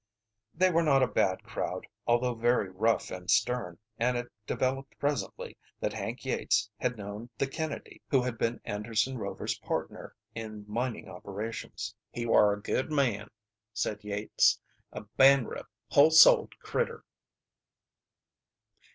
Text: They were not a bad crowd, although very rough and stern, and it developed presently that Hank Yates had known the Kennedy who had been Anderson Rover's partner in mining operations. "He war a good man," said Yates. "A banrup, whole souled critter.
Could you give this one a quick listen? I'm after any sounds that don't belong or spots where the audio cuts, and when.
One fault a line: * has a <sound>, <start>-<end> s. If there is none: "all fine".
all fine